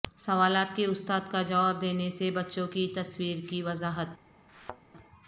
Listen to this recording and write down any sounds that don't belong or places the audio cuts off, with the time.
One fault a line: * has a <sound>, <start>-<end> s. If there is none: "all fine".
* has a thud, 4.5-4.8 s